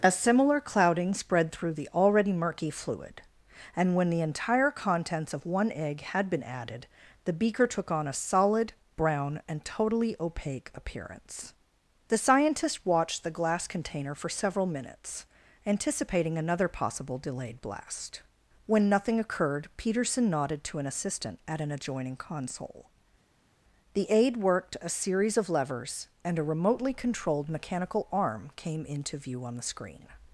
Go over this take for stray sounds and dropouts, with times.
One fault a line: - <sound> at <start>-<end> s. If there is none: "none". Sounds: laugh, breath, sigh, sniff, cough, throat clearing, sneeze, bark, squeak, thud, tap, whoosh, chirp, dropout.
none